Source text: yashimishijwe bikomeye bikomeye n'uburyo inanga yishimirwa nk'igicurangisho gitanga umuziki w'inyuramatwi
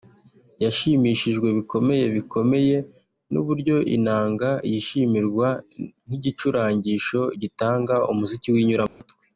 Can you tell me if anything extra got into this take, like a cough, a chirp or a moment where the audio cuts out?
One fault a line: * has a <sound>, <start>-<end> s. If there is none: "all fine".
* has a dropout, 8.9-9.0 s